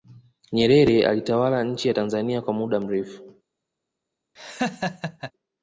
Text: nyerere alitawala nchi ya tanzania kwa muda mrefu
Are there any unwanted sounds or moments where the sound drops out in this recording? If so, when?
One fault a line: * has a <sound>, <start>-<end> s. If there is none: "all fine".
* has a laugh, 4.4-5.3 s